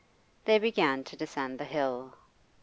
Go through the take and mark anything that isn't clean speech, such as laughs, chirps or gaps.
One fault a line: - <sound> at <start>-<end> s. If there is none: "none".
none